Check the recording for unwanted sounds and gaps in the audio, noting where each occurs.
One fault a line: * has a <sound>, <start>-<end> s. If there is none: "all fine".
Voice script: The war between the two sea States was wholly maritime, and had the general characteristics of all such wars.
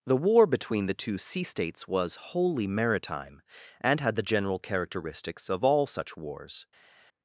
all fine